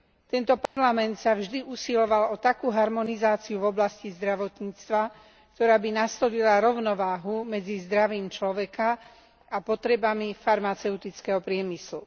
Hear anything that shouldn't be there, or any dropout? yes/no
yes